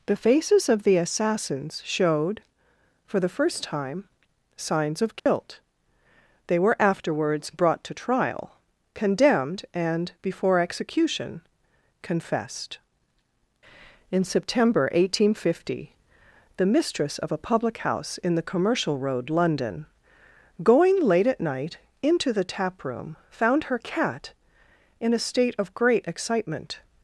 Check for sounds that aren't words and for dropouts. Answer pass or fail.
fail